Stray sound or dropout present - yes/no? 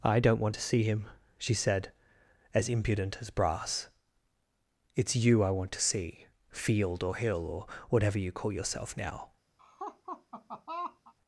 yes